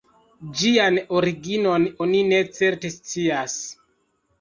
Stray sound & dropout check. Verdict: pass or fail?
pass